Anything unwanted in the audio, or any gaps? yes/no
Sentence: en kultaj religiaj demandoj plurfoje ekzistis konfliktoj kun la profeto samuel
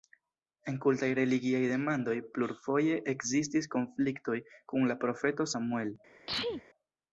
yes